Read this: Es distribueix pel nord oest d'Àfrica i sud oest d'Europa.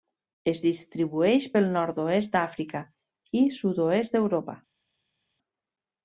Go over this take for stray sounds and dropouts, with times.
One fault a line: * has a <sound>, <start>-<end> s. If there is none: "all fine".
all fine